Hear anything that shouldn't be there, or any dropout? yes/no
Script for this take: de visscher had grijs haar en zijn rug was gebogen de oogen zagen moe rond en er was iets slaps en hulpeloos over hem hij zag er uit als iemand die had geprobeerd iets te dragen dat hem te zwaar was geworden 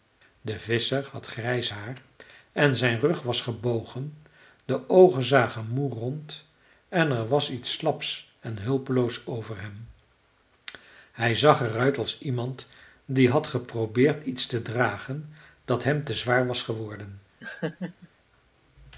yes